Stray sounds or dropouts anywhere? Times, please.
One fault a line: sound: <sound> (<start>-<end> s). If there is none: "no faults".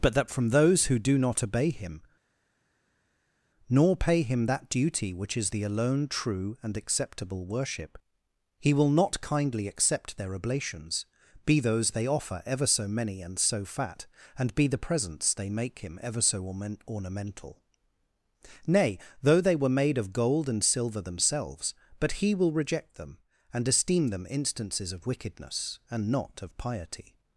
no faults